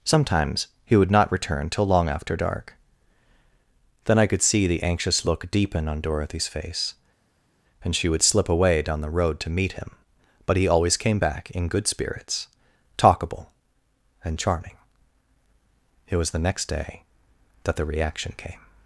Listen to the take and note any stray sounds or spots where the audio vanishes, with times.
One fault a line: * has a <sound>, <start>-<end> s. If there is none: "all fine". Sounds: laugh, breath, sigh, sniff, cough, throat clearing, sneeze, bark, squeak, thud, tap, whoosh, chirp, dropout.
all fine